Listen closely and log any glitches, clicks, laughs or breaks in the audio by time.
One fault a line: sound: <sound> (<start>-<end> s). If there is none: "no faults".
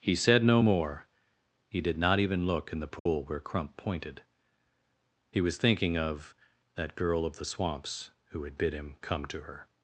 sound: dropout (3.0-3.1 s)